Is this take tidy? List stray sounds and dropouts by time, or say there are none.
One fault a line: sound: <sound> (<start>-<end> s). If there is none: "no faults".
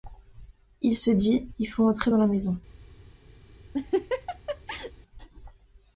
sound: laugh (3.7-4.9 s)